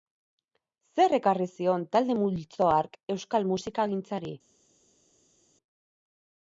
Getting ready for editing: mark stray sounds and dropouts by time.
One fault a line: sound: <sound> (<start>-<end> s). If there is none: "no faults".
no faults